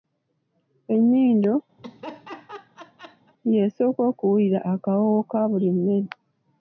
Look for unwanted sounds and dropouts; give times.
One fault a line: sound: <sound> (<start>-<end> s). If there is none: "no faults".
sound: laugh (1.8-3.3 s)